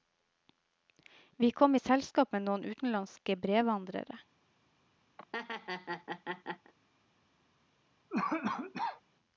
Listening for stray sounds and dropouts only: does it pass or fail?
fail